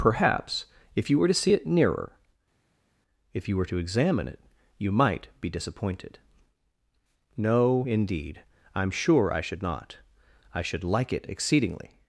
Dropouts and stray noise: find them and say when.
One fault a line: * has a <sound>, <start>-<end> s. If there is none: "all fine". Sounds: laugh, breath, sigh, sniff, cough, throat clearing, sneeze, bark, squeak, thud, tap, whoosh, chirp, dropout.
all fine